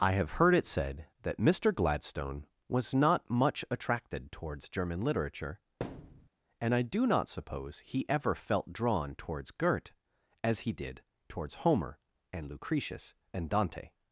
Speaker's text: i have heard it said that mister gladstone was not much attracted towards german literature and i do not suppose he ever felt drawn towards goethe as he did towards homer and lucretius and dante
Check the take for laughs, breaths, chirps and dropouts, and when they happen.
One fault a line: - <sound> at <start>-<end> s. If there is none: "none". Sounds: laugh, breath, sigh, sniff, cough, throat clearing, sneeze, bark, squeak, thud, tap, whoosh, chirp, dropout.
- thud at 5.8-6.3 s